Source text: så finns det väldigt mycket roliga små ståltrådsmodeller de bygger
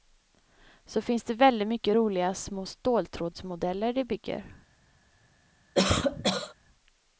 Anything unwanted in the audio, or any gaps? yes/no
yes